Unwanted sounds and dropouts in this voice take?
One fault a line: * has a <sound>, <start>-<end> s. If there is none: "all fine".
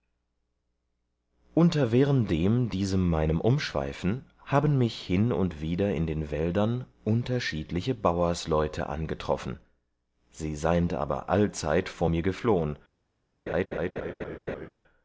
* has a laugh, 13.5-14.7 s